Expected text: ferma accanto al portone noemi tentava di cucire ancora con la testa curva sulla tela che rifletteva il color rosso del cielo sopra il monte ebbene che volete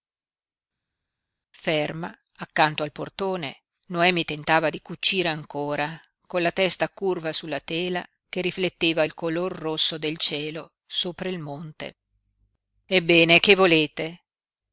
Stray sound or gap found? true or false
false